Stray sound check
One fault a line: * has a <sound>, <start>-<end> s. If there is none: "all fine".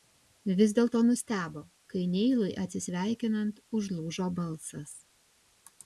all fine